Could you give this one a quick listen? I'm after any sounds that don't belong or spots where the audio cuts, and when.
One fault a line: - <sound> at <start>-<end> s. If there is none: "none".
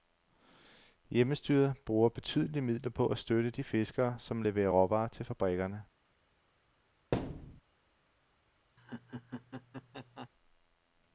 - thud at 7.1-7.6 s
- laugh at 8.8-10.3 s